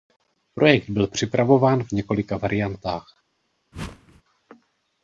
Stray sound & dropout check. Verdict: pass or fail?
fail